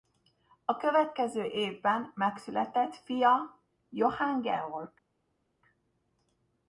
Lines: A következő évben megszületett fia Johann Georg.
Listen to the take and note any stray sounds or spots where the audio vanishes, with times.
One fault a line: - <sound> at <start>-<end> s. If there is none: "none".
none